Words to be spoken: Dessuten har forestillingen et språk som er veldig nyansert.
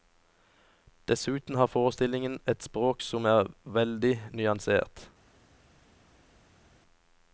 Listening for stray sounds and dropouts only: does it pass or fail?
pass